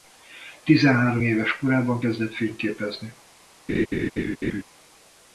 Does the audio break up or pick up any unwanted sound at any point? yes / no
yes